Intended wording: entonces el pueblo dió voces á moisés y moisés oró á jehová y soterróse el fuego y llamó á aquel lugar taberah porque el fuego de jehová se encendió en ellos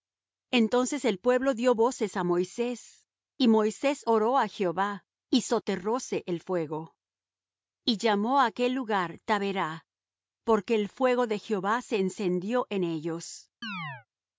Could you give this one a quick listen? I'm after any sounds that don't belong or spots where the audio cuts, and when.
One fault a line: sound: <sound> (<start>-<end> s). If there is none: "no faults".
sound: chirp (13.6-14.1 s)